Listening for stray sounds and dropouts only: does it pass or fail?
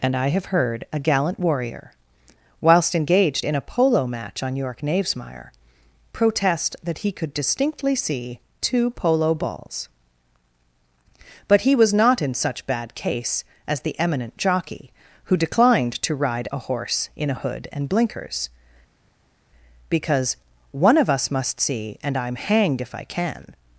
pass